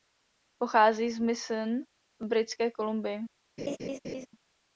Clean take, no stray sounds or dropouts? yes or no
no